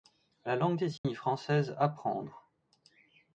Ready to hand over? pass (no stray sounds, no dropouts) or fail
fail